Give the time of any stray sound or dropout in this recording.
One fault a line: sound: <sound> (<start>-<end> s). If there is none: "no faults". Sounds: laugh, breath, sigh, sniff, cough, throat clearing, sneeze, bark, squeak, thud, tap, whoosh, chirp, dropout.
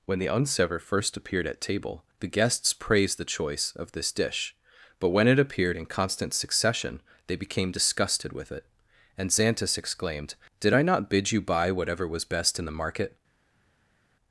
no faults